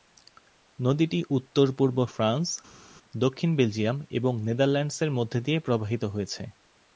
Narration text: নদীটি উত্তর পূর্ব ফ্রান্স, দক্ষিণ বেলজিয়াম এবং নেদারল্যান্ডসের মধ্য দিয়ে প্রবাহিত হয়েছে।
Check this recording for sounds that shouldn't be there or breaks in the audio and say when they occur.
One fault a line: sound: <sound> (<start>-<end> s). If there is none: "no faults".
no faults